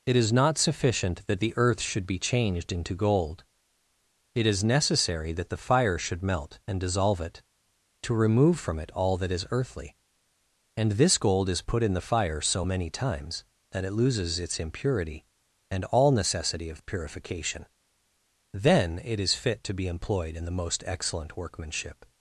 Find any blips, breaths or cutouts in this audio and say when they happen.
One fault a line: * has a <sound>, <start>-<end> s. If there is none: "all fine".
all fine